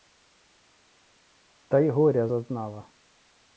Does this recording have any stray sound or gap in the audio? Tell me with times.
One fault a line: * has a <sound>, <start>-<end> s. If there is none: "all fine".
all fine